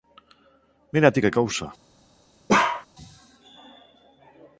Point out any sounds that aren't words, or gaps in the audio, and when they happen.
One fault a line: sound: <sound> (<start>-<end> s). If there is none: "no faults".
sound: bark (2.5-2.9 s)